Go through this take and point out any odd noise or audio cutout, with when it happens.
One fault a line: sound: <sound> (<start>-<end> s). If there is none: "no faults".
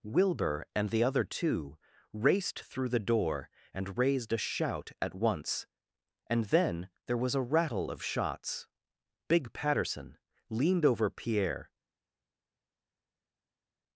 no faults